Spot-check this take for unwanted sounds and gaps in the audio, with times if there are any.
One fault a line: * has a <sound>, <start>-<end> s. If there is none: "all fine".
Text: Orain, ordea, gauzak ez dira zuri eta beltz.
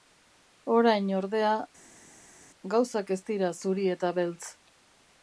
all fine